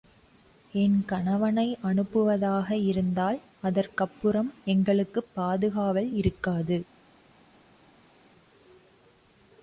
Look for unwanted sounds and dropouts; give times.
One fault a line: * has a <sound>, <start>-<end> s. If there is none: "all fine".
all fine